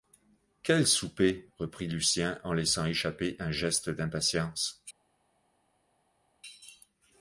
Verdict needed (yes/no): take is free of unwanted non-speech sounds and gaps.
yes